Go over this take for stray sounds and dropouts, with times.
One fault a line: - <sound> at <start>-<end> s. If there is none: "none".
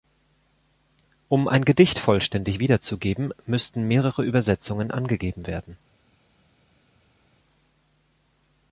none